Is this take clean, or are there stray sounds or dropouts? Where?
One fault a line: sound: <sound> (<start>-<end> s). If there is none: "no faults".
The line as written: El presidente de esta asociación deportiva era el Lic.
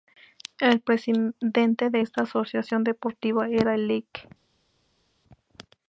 no faults